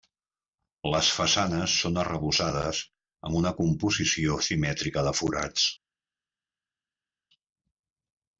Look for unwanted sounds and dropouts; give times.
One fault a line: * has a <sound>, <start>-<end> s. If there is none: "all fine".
all fine